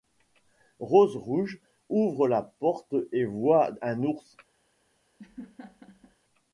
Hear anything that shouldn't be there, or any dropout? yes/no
yes